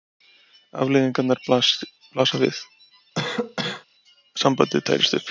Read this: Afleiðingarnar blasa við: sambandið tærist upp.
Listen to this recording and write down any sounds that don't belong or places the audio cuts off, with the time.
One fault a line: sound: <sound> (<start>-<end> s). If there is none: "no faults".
sound: cough (3.1-3.9 s)